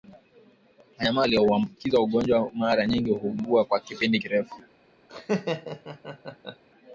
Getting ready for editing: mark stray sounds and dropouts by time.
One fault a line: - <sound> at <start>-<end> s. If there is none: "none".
- laugh at 5.1-6.6 s